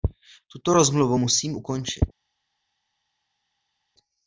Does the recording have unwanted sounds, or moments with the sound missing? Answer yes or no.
no